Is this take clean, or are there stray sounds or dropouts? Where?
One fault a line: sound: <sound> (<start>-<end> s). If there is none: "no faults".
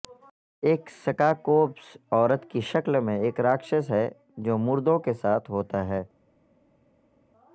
no faults